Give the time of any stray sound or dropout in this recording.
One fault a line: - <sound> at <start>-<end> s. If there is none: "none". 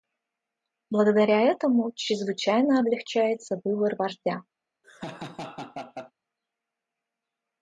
- laugh at 4.8-6.1 s